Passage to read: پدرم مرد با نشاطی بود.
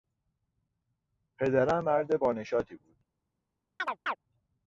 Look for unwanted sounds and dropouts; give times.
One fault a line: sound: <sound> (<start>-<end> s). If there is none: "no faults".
sound: chirp (3.8-4.2 s)